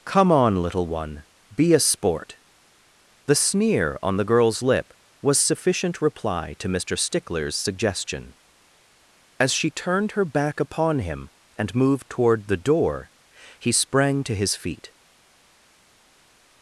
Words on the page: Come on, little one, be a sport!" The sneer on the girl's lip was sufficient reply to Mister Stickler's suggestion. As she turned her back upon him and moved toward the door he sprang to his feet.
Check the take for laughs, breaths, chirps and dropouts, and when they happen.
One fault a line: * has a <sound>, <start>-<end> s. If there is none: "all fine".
all fine